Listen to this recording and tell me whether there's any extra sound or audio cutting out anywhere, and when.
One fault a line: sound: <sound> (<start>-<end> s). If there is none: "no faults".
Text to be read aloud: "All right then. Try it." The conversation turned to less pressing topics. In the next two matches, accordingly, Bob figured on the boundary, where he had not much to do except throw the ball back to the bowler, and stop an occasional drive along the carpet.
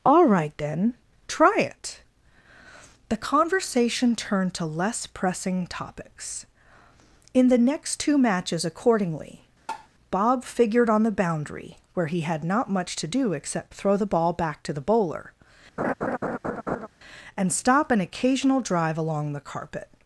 sound: tap (9.7-9.9 s)
sound: laugh (15.8-16.9 s)